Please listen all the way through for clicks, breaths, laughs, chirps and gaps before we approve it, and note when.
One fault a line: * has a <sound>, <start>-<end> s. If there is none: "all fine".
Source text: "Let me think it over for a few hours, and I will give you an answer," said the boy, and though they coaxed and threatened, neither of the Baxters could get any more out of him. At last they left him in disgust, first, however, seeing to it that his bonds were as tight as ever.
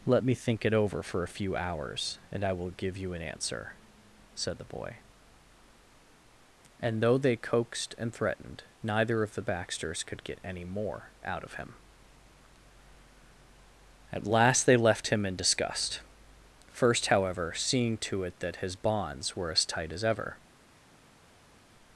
all fine